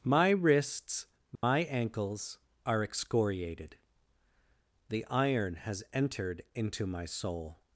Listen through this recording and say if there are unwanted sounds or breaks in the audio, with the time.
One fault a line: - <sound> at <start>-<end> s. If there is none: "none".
- dropout at 1.4-1.4 s